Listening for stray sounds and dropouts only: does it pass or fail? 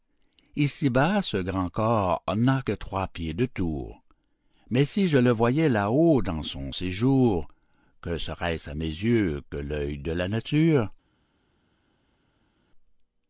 pass